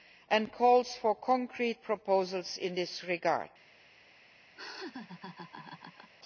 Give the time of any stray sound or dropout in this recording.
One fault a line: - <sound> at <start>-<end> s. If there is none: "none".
- laugh at 4.6-6.1 s